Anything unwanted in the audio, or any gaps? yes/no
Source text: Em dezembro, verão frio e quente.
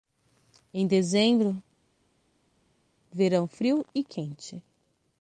no